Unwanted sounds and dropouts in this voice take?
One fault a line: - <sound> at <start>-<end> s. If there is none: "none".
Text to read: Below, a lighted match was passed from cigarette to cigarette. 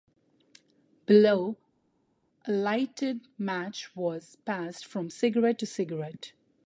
none